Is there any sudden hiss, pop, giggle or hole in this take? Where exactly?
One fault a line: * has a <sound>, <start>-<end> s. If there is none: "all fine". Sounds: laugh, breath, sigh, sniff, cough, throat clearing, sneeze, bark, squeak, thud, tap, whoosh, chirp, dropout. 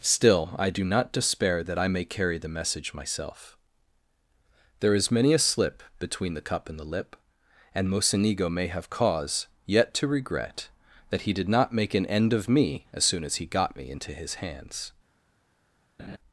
* has a laugh, 16.0-16.2 s